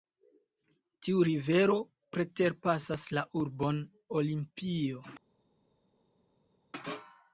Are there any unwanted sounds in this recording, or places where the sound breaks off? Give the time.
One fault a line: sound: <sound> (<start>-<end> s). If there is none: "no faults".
no faults